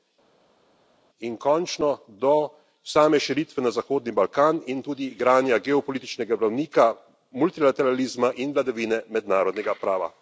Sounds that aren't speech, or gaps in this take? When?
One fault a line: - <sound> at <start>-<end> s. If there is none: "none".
none